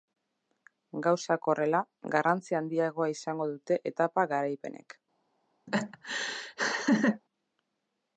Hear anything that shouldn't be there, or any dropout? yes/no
yes